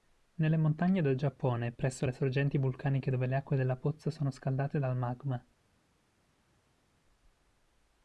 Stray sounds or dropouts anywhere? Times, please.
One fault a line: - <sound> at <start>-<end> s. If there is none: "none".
none